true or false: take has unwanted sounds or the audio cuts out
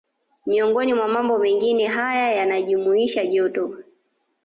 false